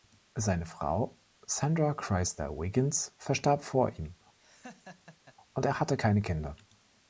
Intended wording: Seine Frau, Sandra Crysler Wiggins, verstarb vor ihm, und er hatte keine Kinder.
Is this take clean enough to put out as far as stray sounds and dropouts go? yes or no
no